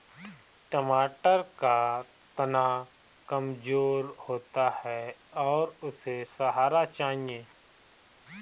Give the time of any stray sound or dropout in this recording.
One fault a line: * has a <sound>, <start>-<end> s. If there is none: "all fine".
all fine